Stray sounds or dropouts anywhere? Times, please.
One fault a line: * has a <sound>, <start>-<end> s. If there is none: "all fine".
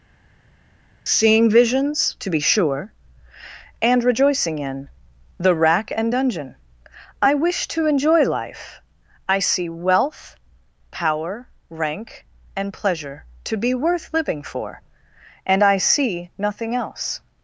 all fine